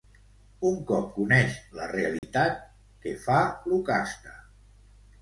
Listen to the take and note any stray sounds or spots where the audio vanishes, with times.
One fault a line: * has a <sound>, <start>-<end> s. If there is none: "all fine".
* has a dropout, 2.2-2.2 s